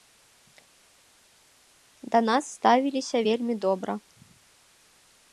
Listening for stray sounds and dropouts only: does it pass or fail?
pass